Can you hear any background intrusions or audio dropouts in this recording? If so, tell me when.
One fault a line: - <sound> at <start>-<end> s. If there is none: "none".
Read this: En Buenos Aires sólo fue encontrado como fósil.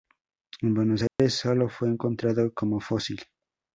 - dropout at 1.1-1.2 s